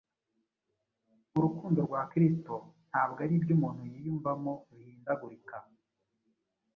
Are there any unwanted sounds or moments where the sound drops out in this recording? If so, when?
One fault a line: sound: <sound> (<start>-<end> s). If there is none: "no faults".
no faults